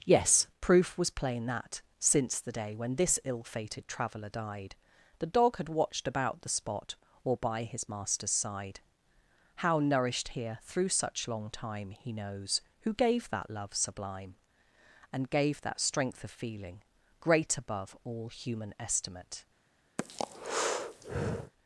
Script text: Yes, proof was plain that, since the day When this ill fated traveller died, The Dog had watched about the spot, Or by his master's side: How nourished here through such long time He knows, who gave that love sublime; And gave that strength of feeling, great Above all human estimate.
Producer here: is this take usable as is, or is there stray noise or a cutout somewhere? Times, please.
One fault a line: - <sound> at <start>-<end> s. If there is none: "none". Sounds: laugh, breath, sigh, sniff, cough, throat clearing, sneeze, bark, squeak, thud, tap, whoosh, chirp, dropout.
- breath at 20.0-21.5 s